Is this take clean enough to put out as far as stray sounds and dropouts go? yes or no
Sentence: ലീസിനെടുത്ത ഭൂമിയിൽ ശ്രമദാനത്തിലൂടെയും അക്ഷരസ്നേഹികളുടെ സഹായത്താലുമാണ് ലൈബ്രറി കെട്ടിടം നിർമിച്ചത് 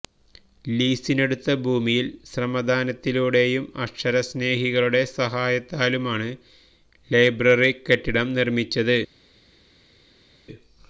yes